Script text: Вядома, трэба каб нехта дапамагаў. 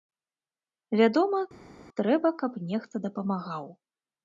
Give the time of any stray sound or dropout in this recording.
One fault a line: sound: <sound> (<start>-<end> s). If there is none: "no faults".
no faults